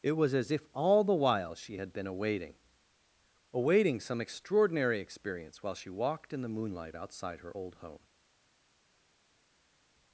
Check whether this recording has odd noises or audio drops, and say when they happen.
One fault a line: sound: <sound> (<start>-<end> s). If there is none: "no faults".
no faults